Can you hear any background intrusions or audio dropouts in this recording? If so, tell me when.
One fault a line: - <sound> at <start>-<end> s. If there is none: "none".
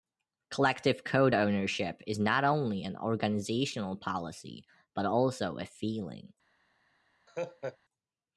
- laugh at 7.3-7.8 s